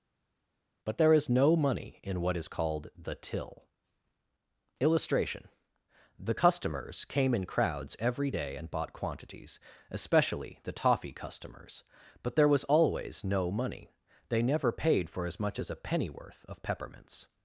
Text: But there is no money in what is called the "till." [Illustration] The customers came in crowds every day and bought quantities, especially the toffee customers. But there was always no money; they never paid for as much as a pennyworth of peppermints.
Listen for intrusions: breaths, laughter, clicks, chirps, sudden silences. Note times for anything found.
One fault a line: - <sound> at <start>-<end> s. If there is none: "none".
none